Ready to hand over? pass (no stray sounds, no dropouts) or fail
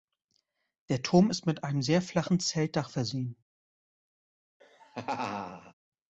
fail